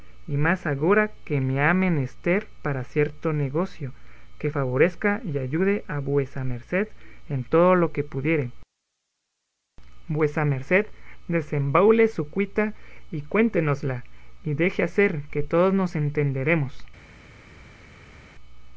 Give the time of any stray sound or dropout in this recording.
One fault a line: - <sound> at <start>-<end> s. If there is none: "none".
none